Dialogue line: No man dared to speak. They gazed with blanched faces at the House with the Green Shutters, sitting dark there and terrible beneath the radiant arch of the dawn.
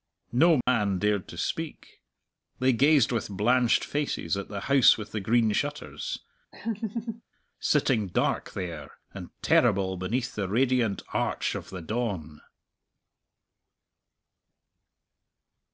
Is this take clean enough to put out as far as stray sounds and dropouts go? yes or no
no